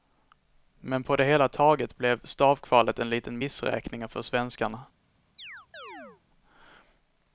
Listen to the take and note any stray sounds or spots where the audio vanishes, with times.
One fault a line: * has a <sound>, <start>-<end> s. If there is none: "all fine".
* has a chirp, 5.4-6.2 s